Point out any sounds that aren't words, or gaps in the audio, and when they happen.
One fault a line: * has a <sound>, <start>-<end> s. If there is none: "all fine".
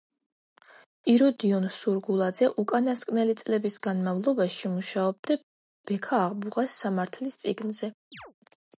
* has a chirp, 8.1-8.3 s